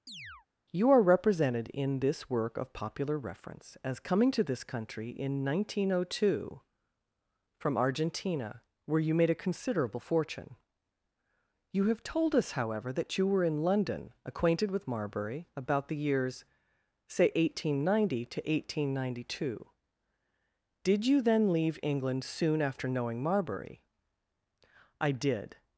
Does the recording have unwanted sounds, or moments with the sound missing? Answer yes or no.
yes